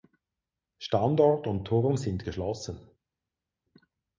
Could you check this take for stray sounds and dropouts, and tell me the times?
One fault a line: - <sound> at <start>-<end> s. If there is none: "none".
none